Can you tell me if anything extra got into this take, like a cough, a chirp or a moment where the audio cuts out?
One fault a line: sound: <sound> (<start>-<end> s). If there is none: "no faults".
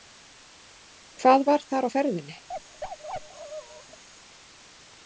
sound: bark (2.5-4.0 s)